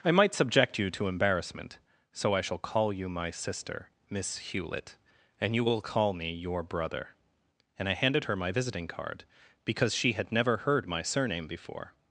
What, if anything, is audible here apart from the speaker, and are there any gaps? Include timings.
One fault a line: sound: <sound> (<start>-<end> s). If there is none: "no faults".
no faults